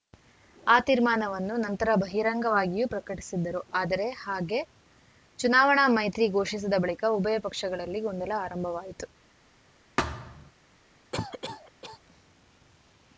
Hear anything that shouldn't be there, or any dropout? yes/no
yes